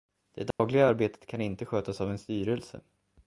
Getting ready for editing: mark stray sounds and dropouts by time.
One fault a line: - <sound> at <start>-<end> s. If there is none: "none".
- dropout at 0.5-0.6 s